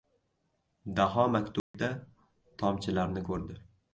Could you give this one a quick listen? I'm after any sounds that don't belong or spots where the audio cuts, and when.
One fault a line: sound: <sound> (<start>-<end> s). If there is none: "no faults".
sound: dropout (1.6-1.7 s)